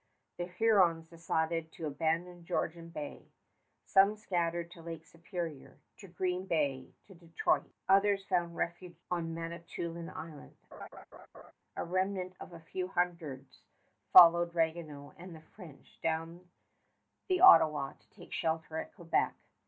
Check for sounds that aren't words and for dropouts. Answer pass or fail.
fail